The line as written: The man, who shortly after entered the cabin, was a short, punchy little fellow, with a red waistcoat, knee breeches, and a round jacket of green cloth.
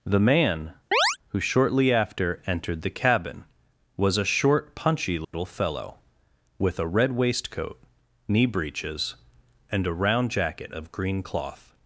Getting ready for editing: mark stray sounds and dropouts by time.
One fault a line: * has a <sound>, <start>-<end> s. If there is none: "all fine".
* has a chirp, 0.9-1.2 s
* has a dropout, 5.2-5.3 s